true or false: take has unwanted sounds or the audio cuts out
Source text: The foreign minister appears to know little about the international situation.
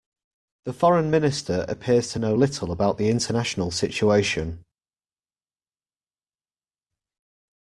false